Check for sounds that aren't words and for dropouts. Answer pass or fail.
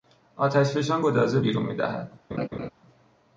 fail